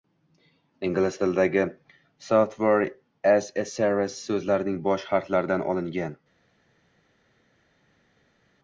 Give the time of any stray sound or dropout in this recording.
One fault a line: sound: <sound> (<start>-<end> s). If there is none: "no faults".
no faults